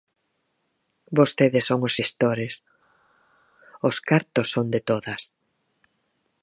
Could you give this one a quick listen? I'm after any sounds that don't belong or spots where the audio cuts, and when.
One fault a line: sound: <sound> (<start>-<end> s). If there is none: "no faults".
no faults